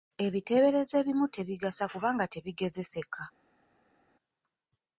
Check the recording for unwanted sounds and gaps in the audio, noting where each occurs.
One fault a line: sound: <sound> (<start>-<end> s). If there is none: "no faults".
no faults